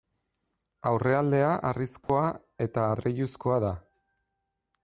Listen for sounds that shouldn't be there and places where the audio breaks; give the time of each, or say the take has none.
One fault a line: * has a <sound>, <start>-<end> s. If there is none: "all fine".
* has a dropout, 2.0-2.1 s